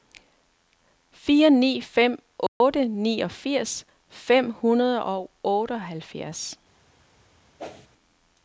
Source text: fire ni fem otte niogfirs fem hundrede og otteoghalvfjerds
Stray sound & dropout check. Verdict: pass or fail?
fail